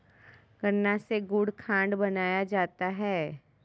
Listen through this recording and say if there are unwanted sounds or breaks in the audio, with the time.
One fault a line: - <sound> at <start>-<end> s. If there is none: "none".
none